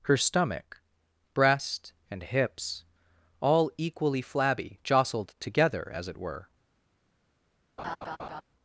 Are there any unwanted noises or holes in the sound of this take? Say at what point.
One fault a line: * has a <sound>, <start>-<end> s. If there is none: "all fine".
* has a laugh, 7.8-8.4 s